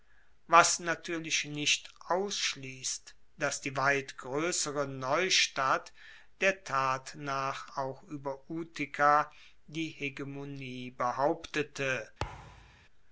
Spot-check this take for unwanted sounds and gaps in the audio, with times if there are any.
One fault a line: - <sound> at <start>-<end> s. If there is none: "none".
- thud at 12.2-12.9 s